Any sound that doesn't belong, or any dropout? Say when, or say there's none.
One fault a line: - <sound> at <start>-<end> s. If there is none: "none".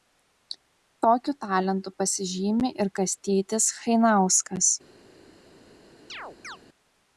- chirp at 6.1-6.6 s